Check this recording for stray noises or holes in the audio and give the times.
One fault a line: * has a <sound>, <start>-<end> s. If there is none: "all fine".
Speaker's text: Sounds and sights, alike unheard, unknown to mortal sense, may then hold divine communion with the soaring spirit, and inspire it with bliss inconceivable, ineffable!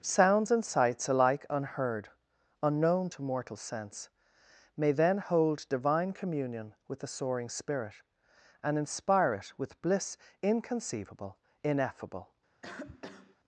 * has a cough, 12.6-13.4 s